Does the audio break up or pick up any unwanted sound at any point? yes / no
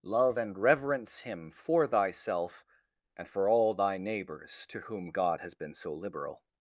no